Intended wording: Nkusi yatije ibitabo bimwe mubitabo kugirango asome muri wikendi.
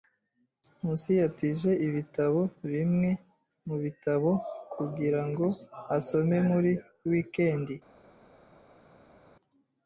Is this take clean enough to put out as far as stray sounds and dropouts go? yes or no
yes